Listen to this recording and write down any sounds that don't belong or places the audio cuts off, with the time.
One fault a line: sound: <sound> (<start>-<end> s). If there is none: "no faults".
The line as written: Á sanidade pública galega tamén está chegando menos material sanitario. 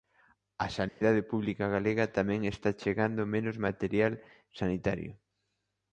sound: dropout (0.9-1.0 s)